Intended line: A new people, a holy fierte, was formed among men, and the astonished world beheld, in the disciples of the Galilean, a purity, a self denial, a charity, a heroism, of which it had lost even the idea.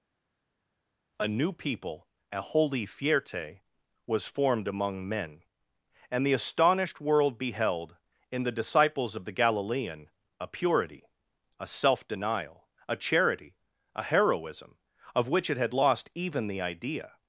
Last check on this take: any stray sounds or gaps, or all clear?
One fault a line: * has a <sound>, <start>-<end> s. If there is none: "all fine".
all fine